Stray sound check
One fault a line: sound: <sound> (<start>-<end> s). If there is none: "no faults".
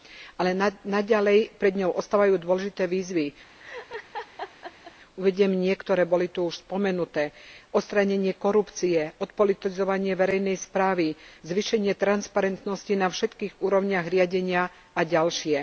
sound: laugh (3.6-4.9 s)